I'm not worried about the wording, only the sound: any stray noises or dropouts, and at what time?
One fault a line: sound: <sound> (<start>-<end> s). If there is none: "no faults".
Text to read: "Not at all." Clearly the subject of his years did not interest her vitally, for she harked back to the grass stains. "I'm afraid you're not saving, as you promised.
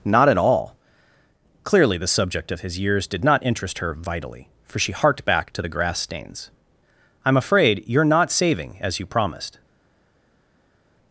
no faults